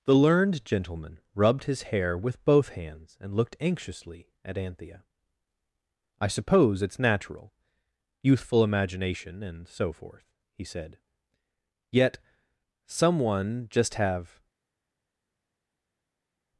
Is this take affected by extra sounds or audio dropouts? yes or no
no